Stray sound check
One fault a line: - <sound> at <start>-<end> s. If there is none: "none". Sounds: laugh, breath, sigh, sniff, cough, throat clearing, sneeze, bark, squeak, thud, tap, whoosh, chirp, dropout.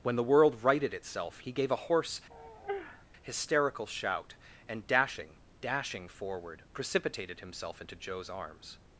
- sigh at 2.3-3.1 s